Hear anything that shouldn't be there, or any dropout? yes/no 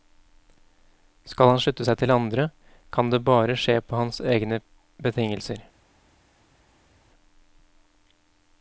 no